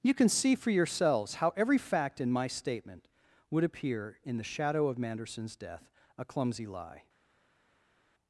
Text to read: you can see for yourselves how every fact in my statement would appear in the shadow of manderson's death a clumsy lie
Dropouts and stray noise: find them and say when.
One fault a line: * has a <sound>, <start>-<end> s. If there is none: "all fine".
all fine